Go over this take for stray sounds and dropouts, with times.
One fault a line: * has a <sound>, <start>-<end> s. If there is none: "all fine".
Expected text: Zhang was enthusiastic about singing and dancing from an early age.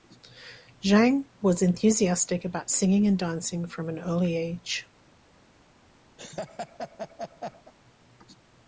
* has a laugh, 6.2-7.7 s